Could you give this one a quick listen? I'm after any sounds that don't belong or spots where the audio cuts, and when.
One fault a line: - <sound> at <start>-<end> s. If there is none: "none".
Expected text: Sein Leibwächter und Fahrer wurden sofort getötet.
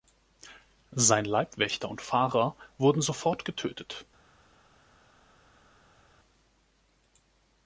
none